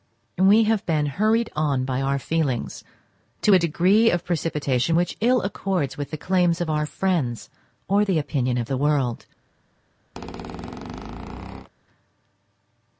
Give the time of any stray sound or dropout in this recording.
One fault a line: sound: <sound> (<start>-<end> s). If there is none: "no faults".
sound: squeak (10.1-11.7 s)